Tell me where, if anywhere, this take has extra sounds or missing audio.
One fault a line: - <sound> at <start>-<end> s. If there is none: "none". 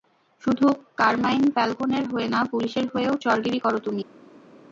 none